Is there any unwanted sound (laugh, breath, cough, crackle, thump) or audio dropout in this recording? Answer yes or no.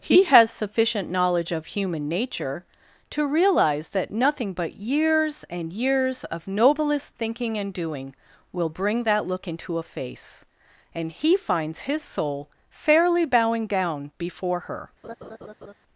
yes